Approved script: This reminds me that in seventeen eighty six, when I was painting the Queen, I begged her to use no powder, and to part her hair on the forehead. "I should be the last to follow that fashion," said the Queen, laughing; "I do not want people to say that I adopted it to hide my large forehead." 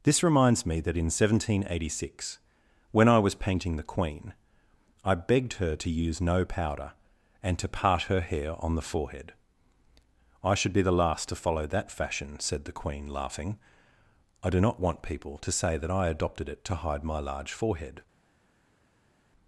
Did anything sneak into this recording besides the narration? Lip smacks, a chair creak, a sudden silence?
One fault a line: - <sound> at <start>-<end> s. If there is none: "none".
none